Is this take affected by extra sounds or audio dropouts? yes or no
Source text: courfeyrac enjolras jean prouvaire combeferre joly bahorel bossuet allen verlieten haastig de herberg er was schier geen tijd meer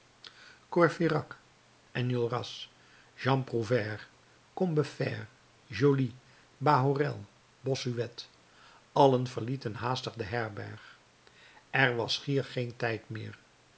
no